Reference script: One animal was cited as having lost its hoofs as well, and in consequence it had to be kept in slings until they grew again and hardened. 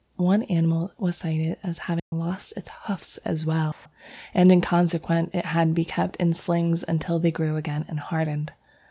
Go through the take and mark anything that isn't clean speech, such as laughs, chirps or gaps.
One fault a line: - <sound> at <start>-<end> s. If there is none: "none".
- dropout at 2.0-2.1 s
- dropout at 3.7-3.9 s